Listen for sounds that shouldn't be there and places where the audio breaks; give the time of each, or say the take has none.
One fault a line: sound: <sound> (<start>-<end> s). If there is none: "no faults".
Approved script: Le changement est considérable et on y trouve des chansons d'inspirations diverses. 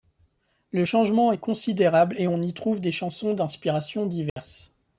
sound: dropout (4.3-4.4 s)